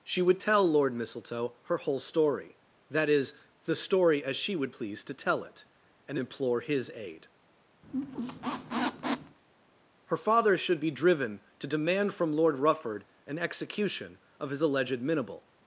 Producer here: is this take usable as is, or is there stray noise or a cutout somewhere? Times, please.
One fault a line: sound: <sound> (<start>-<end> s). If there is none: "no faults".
sound: squeak (7.8-9.4 s)